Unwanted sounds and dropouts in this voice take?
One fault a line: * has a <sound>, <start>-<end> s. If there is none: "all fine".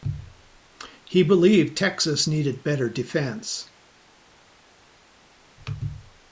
all fine